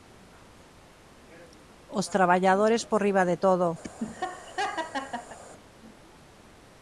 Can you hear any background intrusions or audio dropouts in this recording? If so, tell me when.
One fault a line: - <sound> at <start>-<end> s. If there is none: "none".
- laugh at 3.8-5.4 s